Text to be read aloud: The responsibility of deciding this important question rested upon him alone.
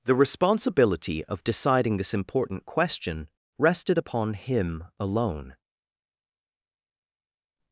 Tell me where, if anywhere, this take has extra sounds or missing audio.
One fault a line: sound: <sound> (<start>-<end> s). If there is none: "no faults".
no faults